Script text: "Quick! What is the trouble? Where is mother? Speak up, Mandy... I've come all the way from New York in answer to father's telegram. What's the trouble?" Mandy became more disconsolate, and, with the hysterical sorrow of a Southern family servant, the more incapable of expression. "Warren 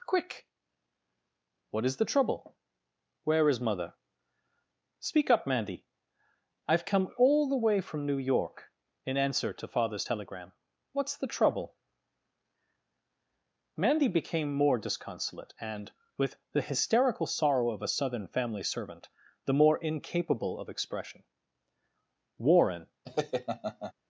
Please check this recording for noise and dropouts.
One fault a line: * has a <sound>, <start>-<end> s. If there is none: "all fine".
* has a laugh, 23.1-23.9 s